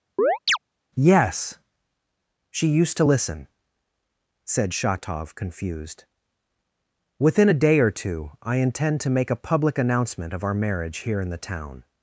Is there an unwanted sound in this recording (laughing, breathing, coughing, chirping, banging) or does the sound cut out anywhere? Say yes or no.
yes